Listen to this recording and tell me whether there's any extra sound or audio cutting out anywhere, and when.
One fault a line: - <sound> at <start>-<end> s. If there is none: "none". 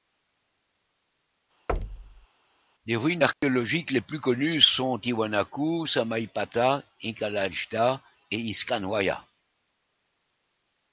- thud at 1.7-2.3 s
- dropout at 3.3-3.4 s